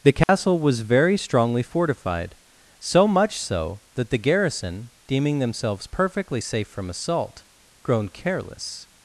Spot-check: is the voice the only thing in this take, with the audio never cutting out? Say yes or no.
no